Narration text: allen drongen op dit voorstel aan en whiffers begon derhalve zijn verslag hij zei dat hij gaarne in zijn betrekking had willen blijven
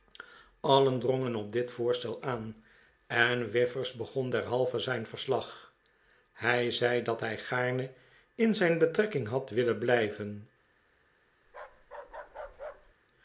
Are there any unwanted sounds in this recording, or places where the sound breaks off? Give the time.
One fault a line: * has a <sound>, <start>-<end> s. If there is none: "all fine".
* has a bark, 11.5-12.9 s